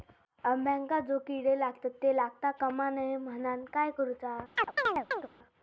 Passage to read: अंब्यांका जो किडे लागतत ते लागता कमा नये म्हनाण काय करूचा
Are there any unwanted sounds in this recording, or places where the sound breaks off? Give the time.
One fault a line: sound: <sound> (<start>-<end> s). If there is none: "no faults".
sound: chirp (4.6-5.3 s)